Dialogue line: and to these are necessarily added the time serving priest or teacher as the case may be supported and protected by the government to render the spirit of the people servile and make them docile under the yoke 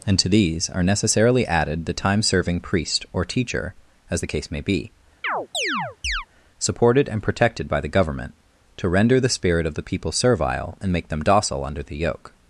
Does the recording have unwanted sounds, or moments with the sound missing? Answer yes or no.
yes